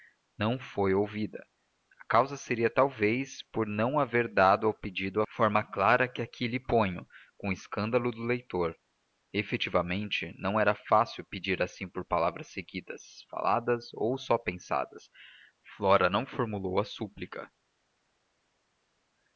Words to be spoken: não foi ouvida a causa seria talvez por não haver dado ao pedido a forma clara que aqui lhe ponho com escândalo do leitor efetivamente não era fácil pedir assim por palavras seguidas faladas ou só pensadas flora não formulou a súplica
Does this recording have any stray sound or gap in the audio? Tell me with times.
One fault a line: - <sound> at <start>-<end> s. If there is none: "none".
none